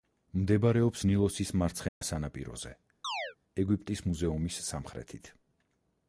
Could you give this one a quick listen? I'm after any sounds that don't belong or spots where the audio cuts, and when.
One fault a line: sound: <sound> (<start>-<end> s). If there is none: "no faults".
sound: dropout (1.9-2.0 s)
sound: chirp (3.0-3.4 s)